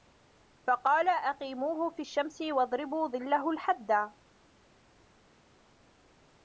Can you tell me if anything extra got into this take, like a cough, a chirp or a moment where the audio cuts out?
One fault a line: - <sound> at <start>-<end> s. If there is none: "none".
none